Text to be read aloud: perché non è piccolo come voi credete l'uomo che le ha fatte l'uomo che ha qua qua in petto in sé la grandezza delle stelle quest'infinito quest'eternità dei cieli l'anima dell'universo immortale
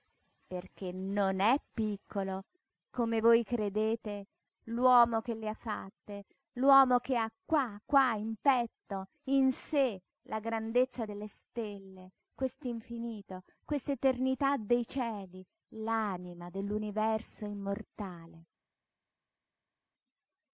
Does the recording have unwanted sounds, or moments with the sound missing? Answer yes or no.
no